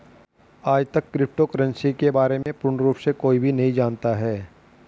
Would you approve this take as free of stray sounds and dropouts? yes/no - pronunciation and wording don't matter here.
no